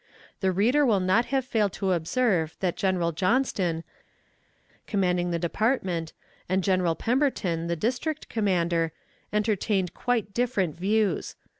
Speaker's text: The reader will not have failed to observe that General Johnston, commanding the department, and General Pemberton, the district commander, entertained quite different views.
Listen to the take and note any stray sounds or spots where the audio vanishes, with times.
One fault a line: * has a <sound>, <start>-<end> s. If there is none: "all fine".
all fine